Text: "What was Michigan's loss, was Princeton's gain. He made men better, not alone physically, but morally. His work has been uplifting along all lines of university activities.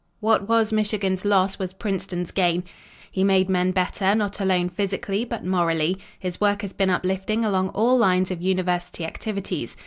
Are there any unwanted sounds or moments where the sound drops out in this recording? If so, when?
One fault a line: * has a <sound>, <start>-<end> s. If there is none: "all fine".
all fine